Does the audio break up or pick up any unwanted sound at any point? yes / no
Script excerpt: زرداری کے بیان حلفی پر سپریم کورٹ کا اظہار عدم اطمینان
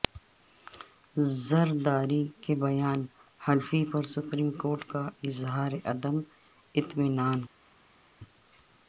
no